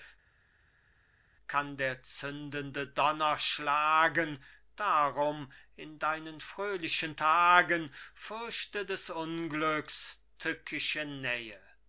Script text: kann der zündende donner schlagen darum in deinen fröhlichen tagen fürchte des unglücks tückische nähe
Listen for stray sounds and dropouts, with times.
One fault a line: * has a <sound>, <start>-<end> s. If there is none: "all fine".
all fine